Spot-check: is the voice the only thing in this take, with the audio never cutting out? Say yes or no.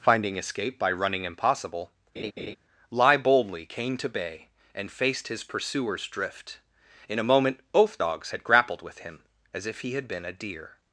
no